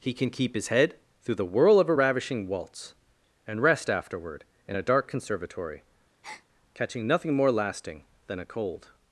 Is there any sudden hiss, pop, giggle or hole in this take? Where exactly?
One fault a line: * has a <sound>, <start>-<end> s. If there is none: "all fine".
* has a breath, 6.2-6.5 s